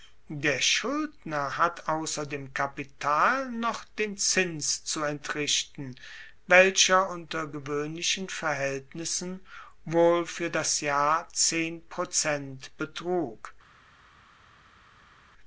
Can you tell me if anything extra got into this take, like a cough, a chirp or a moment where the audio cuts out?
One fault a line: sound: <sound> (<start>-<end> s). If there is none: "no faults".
no faults